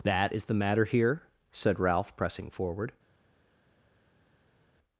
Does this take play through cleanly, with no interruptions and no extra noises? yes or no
yes